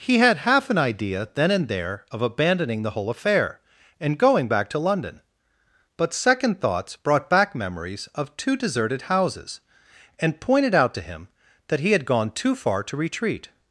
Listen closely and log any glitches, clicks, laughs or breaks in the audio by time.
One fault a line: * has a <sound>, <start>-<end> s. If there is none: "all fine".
all fine